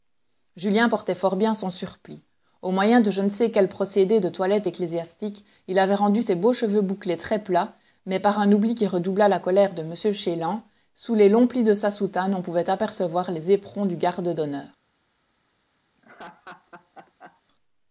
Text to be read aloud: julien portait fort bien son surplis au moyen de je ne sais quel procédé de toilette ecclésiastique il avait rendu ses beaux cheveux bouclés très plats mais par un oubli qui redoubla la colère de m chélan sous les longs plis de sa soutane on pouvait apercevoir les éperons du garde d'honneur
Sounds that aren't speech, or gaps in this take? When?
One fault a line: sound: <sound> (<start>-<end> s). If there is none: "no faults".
sound: laugh (16.0-17.4 s)